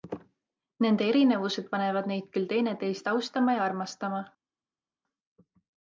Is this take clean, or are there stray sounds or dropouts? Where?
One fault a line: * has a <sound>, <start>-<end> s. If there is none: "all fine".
all fine